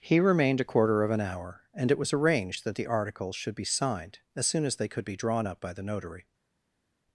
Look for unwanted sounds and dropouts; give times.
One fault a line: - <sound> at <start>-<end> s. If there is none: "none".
none